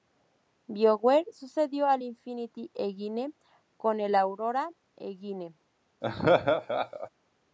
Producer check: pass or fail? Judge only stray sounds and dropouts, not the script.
fail